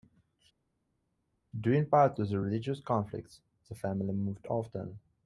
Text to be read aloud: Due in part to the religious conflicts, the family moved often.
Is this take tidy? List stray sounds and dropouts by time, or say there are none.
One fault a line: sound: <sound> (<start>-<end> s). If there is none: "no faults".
no faults